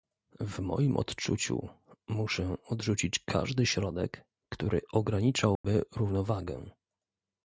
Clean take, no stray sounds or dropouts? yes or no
no